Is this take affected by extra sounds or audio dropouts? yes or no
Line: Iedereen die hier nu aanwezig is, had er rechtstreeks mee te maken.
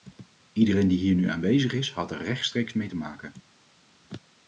no